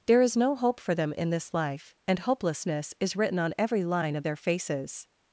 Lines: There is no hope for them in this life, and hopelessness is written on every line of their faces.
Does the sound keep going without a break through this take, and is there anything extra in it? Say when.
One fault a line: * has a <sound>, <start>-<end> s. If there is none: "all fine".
all fine